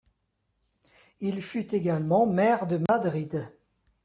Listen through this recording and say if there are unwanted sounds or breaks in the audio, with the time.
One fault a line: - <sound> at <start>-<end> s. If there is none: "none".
- dropout at 2.9-2.9 s